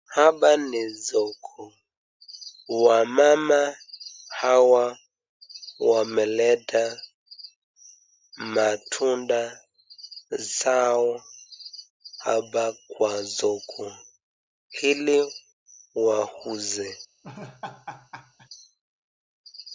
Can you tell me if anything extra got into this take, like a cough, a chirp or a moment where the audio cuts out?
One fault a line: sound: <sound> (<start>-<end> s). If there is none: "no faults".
sound: laugh (17.2-18.5 s)